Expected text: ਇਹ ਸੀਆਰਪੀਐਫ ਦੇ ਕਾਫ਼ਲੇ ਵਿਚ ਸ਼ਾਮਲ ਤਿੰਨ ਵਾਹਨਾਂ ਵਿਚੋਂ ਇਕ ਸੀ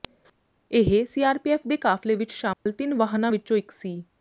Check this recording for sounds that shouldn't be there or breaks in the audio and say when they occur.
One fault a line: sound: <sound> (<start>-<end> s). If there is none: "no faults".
sound: dropout (2.5-2.7 s)